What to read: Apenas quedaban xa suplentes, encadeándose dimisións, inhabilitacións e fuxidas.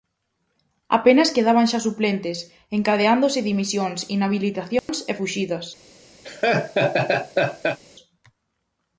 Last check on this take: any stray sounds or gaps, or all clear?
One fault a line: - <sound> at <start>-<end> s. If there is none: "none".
- dropout at 4.8-4.9 s
- laugh at 6.2-7.8 s